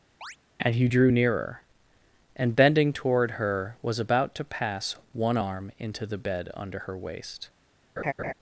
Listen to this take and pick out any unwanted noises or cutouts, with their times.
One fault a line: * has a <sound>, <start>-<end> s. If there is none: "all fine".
* has a chirp, 0.2-0.4 s
* has a laugh, 8.0-8.3 s